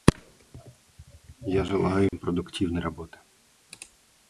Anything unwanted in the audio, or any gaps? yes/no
yes